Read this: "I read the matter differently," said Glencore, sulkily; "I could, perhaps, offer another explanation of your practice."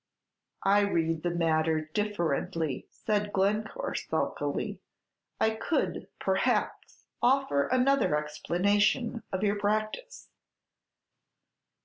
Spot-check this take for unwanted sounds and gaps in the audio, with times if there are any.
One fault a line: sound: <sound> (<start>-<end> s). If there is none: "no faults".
no faults